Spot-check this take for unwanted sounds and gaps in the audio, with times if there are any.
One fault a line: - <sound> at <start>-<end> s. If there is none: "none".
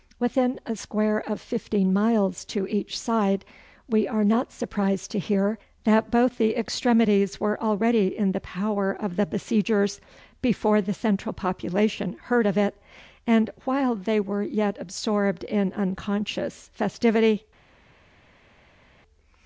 none